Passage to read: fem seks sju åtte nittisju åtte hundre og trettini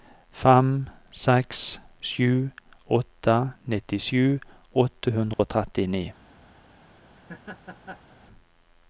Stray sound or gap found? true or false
true